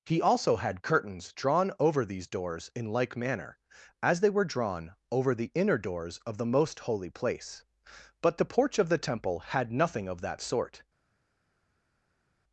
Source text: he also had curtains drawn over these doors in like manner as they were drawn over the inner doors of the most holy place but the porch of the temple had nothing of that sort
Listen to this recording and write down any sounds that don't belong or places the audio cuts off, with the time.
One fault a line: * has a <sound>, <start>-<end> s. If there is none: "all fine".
all fine